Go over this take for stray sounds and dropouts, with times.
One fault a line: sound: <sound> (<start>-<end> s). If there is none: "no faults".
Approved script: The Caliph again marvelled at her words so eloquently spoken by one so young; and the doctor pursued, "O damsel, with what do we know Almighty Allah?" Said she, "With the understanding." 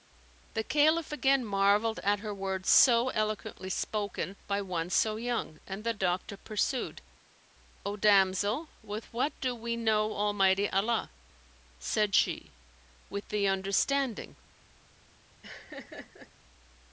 sound: laugh (15.4-16.3 s)